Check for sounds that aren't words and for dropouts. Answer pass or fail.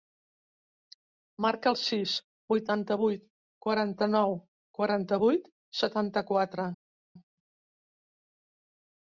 pass